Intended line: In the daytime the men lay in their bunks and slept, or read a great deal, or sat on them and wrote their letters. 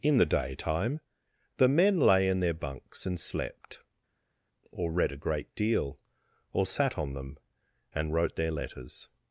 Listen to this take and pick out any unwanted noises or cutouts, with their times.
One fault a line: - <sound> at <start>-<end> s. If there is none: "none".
none